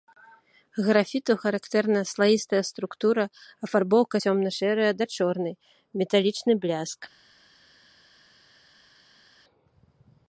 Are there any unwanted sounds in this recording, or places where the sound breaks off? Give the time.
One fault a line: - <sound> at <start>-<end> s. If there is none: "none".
none